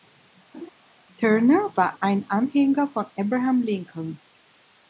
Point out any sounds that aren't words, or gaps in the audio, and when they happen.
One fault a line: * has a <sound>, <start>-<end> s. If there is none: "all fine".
* has a laugh, 0.5-0.7 s